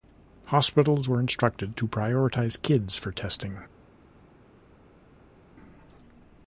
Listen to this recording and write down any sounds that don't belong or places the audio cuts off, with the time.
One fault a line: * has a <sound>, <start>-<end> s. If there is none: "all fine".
all fine